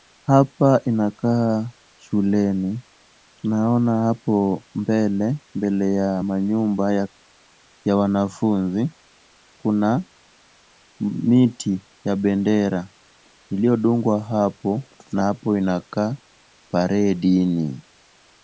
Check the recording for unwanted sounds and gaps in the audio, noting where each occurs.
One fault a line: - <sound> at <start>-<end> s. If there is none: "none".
none